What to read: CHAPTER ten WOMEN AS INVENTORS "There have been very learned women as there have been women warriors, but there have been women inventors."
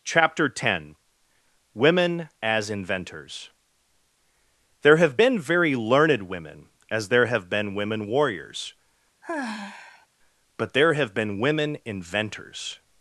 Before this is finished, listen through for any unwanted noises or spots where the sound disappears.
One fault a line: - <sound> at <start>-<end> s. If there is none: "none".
- sigh at 9.2-10.1 s